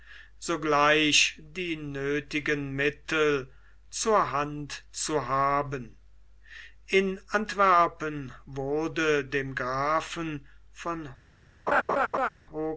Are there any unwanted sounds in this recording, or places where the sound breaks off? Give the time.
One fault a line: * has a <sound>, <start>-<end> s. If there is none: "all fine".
* has a laugh, 11.7-12.3 s